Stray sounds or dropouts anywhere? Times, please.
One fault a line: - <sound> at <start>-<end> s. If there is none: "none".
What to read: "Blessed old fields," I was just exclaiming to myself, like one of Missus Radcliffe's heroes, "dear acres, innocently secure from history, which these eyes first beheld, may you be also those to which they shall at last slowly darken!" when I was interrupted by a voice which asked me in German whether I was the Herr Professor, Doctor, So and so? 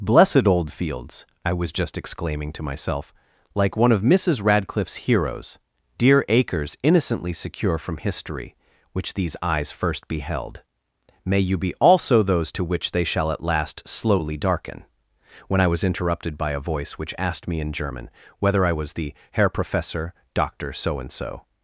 none